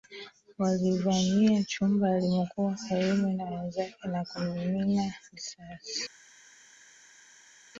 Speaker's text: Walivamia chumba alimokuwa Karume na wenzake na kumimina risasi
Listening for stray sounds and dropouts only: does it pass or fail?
pass